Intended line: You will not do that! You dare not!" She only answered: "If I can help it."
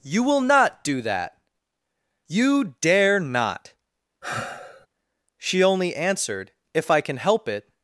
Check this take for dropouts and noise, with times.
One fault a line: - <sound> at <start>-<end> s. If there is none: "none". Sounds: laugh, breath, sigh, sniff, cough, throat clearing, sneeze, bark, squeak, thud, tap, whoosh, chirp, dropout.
- sigh at 4.2-4.9 s